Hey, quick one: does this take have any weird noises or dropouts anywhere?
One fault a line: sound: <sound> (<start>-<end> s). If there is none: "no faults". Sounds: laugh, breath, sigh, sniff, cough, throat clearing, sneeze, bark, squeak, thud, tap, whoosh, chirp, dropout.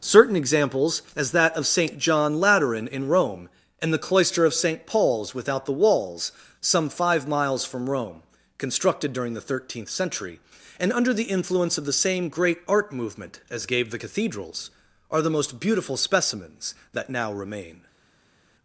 no faults